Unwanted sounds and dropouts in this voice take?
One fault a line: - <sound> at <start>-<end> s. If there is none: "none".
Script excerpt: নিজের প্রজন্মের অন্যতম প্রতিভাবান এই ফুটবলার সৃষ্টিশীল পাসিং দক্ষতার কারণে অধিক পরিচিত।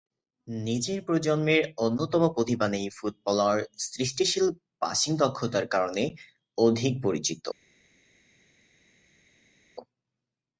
none